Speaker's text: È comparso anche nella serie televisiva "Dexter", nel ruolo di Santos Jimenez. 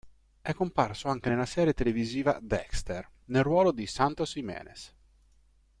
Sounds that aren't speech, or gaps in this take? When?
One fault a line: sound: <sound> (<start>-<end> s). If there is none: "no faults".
no faults